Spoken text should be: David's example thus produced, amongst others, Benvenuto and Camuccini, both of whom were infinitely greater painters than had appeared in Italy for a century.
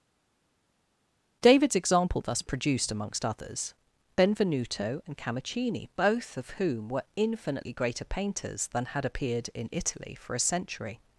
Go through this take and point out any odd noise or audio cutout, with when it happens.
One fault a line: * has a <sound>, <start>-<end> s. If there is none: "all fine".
all fine